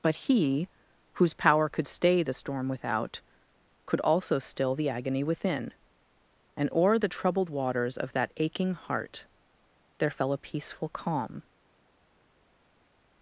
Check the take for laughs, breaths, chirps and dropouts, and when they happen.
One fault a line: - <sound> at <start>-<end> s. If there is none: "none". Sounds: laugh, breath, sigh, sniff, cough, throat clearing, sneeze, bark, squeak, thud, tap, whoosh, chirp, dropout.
none